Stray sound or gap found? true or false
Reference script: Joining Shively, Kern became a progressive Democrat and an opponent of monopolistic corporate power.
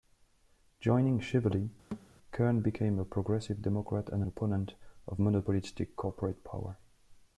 true